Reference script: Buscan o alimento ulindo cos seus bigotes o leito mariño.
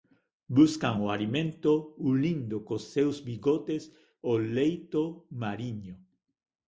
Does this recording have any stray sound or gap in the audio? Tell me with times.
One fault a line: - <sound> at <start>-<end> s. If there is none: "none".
none